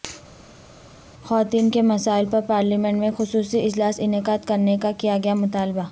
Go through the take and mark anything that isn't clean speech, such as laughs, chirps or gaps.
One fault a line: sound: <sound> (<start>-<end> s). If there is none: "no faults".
no faults